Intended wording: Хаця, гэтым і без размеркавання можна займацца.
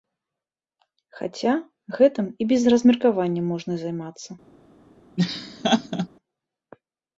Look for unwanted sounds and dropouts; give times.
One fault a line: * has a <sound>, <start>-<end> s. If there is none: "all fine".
* has a laugh, 5.2-6.1 s